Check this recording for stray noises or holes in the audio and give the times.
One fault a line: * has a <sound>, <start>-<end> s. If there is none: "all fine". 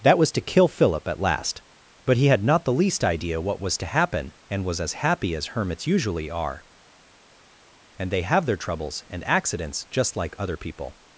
all fine